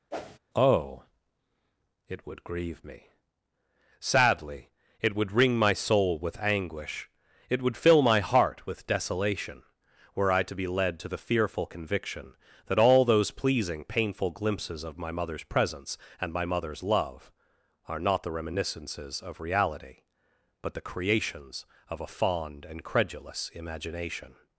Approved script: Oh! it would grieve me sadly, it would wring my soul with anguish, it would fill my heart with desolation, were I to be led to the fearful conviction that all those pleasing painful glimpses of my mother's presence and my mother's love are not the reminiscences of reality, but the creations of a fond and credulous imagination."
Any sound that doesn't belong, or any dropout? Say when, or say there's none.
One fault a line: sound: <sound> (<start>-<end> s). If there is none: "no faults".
sound: whoosh (0.1-0.4 s)